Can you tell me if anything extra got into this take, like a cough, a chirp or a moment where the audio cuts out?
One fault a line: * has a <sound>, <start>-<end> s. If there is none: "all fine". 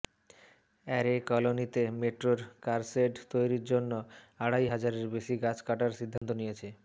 * has a dropout, 6.2-6.2 s